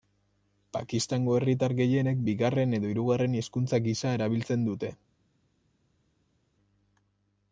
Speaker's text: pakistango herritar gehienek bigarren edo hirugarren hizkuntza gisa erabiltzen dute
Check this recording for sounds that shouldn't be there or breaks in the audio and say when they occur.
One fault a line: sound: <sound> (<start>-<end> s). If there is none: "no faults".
no faults